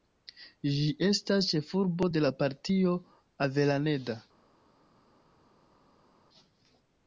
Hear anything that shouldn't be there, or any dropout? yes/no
no